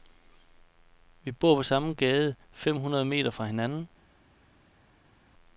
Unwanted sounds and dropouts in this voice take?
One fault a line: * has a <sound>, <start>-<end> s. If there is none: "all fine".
all fine